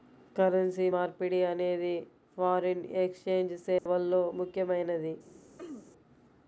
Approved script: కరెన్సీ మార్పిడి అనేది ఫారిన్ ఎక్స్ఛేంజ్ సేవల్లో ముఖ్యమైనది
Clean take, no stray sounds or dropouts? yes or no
no